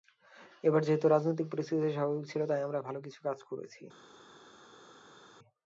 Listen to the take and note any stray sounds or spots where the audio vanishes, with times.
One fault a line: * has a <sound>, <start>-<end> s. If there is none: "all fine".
all fine